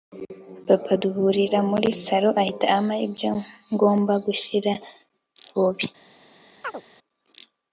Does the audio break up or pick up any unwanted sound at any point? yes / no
yes